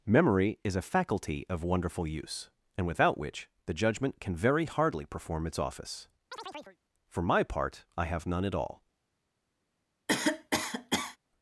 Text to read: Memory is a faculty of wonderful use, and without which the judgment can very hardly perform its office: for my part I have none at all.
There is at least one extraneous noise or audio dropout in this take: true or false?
true